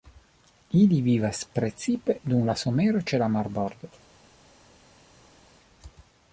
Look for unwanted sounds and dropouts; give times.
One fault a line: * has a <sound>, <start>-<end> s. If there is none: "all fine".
all fine